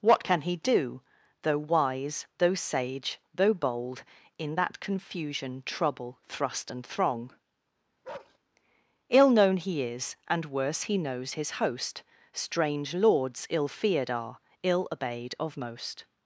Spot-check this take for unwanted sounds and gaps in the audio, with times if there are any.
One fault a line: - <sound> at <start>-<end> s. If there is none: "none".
- bark at 8.0-8.4 s